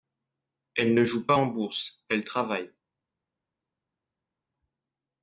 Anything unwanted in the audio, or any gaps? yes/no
no